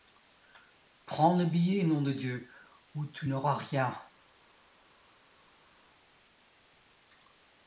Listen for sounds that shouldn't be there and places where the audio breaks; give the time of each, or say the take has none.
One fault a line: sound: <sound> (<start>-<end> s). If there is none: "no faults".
no faults